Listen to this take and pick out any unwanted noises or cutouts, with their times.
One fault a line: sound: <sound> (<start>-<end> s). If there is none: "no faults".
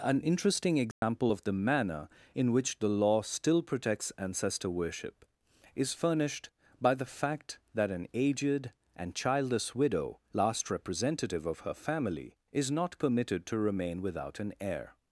sound: dropout (0.9-1.0 s)